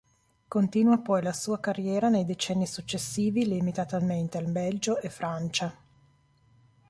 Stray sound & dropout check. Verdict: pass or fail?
pass